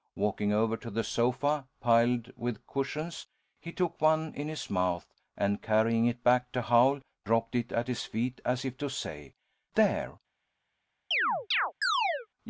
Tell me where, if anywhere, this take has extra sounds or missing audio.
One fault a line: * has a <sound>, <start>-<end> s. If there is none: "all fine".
* has a chirp, 11.1-12.3 s